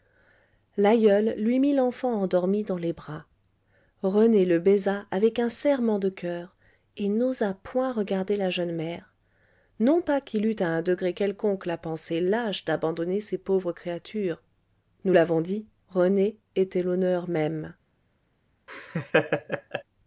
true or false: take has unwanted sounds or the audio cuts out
true